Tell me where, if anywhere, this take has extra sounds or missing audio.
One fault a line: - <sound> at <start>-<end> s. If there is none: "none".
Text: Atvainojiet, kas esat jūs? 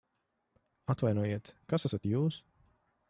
none